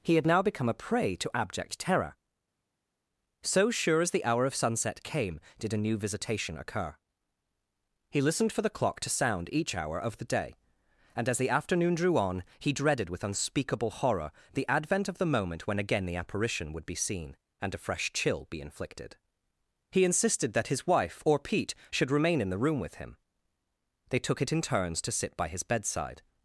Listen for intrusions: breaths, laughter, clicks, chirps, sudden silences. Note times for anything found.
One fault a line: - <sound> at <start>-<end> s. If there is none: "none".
none